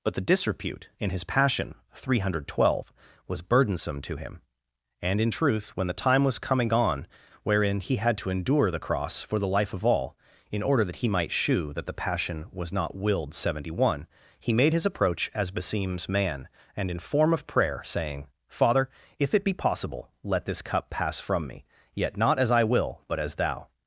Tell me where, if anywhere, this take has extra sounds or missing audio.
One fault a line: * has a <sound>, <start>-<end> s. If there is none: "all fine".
all fine